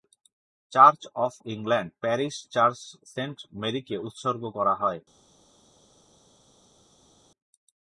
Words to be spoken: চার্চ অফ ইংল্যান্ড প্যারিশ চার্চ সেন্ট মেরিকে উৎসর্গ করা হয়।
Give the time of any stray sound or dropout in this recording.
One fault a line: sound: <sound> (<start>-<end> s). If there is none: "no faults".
no faults